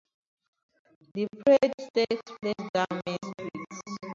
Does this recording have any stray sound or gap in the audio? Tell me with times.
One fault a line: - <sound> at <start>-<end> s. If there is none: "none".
none